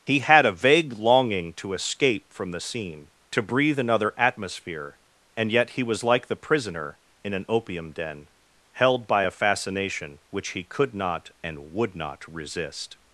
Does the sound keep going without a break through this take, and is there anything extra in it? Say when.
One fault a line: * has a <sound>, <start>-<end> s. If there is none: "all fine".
all fine